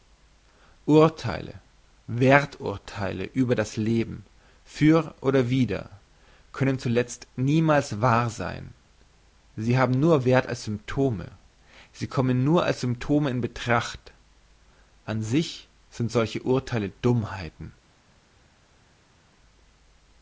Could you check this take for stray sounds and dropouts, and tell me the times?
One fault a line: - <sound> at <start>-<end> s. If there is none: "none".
none